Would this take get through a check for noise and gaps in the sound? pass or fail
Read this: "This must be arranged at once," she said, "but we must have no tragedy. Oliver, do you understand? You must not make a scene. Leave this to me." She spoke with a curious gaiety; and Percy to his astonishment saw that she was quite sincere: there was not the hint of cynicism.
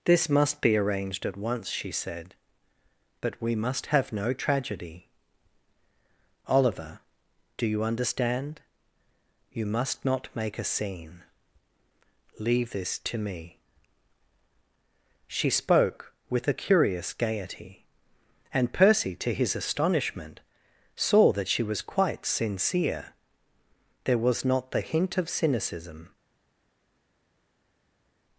pass